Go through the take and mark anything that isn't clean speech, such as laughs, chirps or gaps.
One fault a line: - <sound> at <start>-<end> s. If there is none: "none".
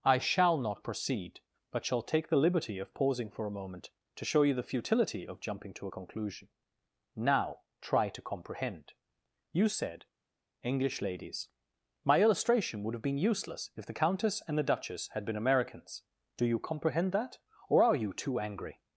none